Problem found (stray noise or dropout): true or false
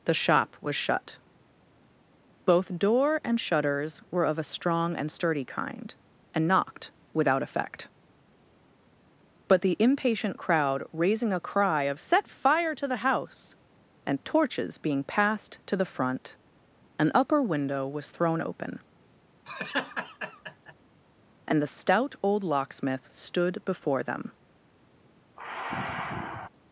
true